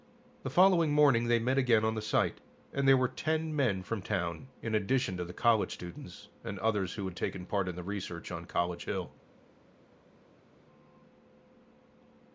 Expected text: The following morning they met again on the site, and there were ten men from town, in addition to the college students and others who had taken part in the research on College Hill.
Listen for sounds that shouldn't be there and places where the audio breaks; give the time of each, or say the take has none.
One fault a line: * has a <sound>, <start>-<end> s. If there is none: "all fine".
all fine